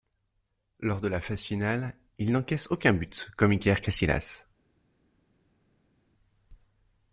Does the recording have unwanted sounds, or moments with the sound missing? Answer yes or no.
no